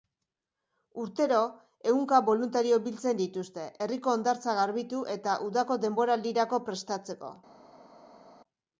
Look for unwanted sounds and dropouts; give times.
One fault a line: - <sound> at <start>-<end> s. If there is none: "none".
none